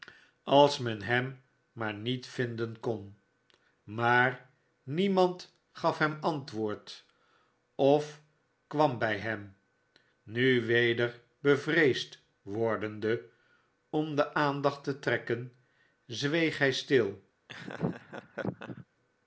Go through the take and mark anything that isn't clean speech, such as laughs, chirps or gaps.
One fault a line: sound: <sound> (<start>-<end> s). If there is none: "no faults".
sound: laugh (17.5-18.9 s)